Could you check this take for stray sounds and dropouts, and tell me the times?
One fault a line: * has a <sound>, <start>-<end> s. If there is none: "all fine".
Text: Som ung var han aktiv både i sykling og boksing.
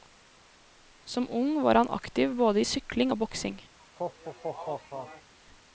* has a laugh, 3.8-5.3 s